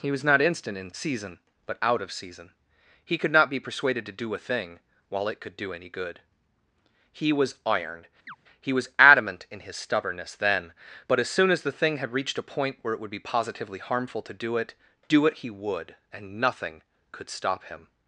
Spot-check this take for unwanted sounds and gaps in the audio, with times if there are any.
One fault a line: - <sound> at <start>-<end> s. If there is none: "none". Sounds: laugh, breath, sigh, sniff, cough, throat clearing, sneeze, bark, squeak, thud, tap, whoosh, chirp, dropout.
- chirp at 8.3-8.4 s